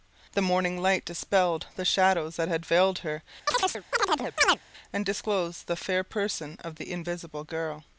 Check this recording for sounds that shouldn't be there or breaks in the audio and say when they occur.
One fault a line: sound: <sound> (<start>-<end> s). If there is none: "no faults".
sound: chirp (3.5-4.6 s)